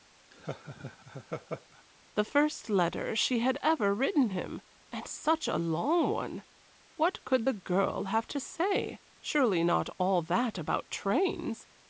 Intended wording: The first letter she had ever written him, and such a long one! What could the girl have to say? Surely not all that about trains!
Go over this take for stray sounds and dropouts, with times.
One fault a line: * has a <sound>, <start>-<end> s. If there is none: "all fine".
* has a laugh, 0.3-1.8 s